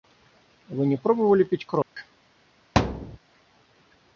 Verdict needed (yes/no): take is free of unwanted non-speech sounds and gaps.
no